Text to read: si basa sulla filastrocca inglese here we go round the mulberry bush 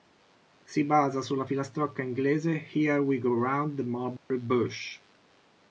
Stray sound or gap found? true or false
true